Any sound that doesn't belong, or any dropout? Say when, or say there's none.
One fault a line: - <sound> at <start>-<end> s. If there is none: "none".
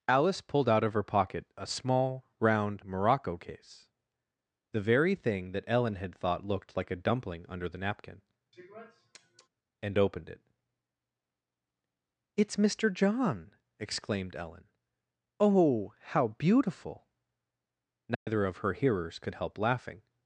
- sniff at 8.5-9.5 s
- dropout at 18.1-18.3 s